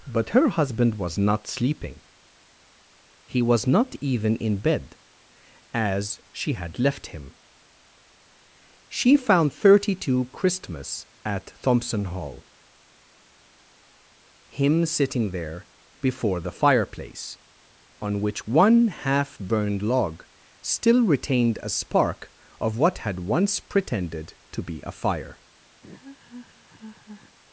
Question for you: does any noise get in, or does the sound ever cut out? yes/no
yes